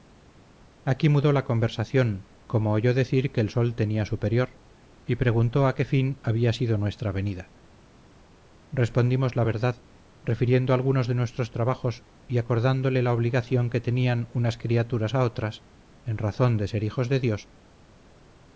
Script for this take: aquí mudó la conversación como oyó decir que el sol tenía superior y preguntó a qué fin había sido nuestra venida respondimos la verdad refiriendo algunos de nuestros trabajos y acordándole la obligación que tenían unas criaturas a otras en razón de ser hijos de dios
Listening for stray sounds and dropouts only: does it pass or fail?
pass